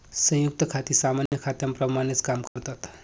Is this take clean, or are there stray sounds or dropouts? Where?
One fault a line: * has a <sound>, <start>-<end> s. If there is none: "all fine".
* has a dropout, 1.3-1.3 s
* has a dropout, 2.5-2.6 s